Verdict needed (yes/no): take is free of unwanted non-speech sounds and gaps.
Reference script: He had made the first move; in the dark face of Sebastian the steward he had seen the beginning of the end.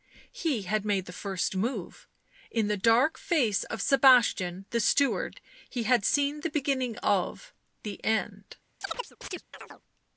no